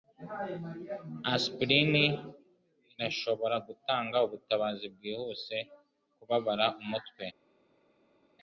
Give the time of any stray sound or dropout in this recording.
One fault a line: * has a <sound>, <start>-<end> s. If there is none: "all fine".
all fine